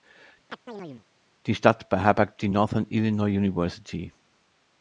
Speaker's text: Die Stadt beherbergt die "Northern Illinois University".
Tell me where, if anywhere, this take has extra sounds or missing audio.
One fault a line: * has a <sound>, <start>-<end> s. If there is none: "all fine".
* has a chirp, 0.5-1.1 s